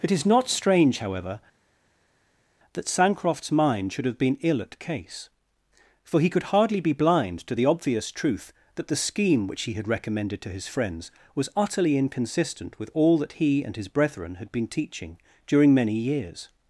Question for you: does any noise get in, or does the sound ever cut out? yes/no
no